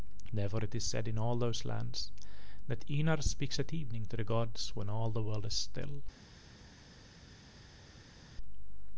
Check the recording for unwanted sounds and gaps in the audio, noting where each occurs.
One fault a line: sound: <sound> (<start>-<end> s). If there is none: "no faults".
no faults